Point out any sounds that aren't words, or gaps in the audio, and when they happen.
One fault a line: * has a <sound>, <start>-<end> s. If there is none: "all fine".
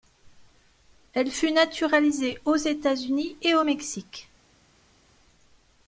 all fine